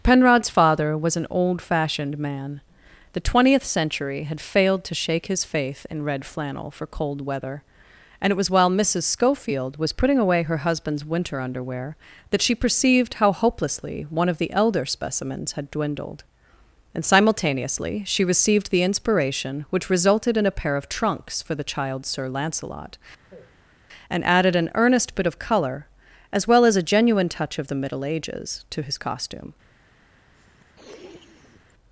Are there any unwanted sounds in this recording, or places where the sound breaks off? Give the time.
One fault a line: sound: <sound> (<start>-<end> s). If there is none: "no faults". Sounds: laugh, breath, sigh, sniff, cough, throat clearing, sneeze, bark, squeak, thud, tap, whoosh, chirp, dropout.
sound: sigh (23.2-23.7 s)
sound: sniff (30.3-31.7 s)